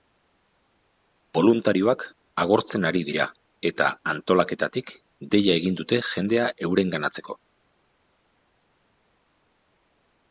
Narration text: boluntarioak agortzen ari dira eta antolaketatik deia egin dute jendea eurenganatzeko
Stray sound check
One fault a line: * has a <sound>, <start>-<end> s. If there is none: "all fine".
all fine